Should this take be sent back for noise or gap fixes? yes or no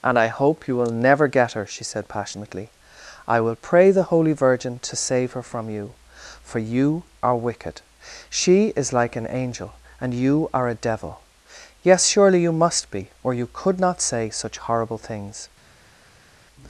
no